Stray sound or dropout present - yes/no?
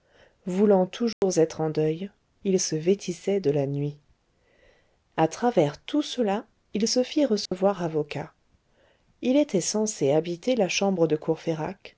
yes